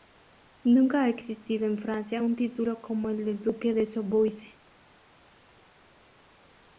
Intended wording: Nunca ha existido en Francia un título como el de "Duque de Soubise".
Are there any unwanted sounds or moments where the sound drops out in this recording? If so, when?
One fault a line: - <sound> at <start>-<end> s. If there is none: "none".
none